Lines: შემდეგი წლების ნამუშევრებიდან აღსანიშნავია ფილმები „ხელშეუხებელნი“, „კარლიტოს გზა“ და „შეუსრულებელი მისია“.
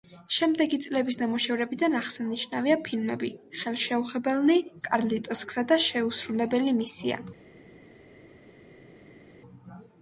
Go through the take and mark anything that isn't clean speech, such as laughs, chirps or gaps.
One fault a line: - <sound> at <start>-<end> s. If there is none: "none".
none